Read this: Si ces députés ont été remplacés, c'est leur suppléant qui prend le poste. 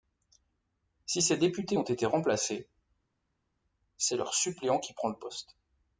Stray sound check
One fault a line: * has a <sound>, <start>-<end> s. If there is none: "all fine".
all fine